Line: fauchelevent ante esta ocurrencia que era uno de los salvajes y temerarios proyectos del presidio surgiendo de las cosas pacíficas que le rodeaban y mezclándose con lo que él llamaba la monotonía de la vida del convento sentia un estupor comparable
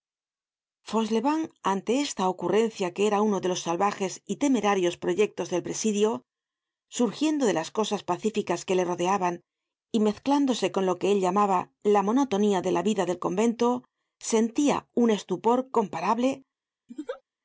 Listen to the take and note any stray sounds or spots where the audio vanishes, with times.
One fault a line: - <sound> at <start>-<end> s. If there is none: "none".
- laugh at 16.9-17.2 s